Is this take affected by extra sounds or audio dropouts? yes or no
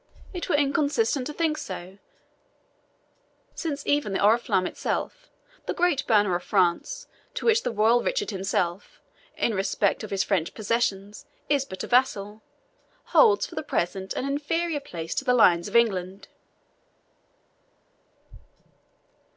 no